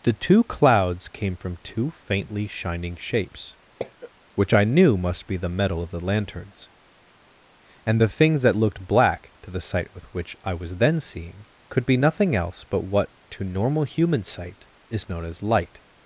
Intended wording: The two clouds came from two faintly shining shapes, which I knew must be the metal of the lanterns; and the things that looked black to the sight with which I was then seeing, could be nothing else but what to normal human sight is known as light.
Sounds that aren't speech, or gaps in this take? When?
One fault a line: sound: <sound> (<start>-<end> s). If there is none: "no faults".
sound: cough (3.8-4.1 s)